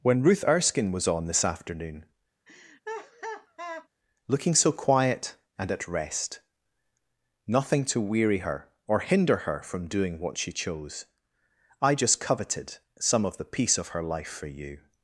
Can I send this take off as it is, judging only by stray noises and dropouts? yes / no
no